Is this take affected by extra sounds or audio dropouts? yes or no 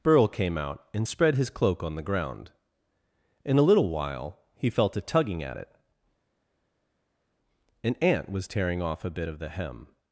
no